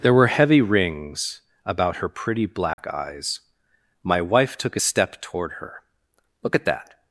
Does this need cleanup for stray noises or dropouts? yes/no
yes